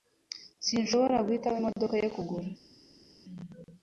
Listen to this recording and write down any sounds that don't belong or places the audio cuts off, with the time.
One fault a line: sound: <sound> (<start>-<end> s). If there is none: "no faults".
no faults